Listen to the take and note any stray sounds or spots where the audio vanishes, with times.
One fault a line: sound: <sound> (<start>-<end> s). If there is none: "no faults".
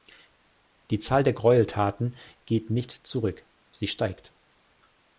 no faults